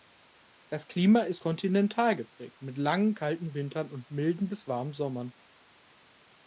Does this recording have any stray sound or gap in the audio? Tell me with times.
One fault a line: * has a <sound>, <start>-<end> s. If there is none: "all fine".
all fine